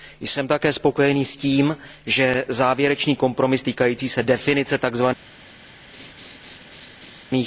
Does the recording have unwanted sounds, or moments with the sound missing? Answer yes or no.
yes